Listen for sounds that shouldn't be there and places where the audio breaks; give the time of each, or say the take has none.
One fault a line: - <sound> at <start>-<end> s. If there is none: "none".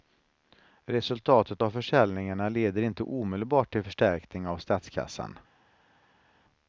none